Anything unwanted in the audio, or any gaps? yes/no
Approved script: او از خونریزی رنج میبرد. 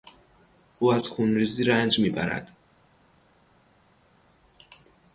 no